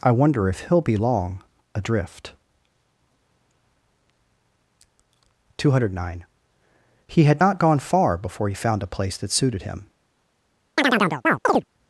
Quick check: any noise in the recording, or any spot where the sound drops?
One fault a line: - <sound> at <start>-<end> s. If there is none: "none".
- chirp at 10.8-11.6 s